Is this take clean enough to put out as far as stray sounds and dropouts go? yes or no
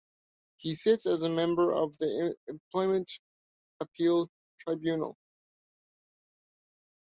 yes